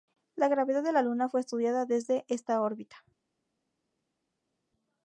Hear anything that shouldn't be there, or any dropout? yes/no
no